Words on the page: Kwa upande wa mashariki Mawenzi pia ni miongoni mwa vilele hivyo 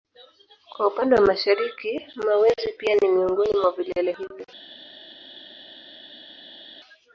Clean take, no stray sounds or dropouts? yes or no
yes